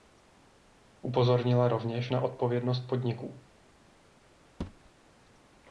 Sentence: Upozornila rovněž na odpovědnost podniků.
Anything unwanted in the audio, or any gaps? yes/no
yes